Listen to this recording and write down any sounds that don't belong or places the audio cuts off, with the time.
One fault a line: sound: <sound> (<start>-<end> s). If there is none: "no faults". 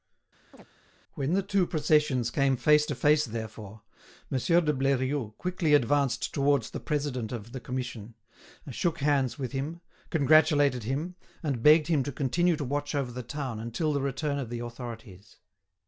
sound: chirp (0.5-0.7 s)